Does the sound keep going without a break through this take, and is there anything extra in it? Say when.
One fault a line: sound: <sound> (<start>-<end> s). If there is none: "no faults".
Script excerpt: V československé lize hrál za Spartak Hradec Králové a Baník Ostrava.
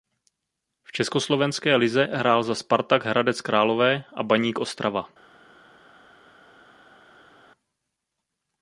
no faults